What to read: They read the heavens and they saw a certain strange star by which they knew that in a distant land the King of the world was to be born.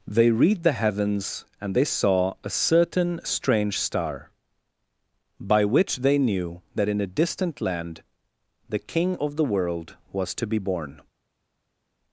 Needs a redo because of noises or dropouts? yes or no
no